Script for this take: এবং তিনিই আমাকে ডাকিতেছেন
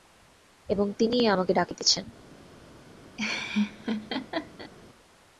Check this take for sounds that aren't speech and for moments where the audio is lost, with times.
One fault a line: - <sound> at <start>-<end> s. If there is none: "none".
- laugh at 3.2-4.7 s